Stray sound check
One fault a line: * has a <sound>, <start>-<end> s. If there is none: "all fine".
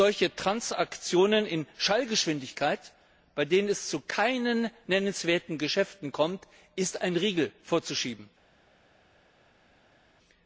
all fine